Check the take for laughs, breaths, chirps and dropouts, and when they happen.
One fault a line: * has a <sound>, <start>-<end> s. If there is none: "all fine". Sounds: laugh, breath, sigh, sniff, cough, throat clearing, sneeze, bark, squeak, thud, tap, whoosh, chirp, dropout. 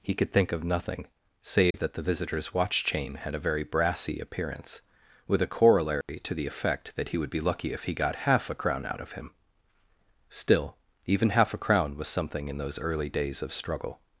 * has a dropout, 1.7-1.7 s
* has a dropout, 6.0-6.1 s